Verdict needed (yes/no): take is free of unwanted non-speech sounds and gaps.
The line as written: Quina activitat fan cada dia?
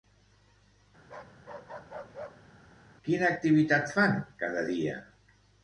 no